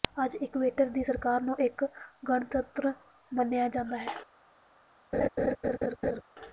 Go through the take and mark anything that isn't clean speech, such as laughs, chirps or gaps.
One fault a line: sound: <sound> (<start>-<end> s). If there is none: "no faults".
sound: laugh (5.1-6.2 s)